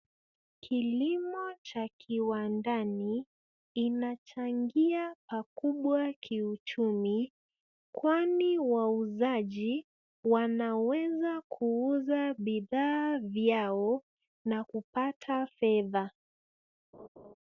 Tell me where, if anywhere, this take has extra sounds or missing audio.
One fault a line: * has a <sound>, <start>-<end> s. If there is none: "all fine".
* has a laugh, 16.9-17.3 s